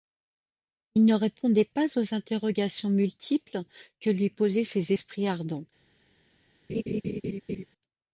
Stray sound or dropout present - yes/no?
yes